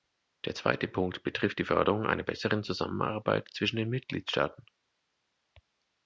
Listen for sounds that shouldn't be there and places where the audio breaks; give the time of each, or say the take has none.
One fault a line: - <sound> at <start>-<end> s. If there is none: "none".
none